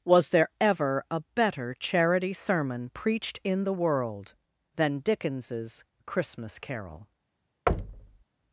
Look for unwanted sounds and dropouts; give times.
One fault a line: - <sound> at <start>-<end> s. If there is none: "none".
- thud at 7.7-8.2 s